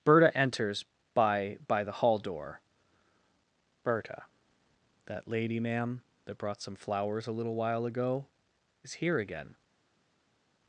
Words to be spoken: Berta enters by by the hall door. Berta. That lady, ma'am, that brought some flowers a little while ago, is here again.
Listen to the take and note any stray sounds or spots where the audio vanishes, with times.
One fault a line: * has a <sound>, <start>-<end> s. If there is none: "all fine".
all fine